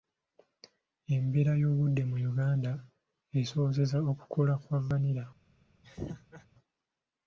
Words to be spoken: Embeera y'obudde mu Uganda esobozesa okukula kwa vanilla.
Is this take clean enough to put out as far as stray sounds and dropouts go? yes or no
no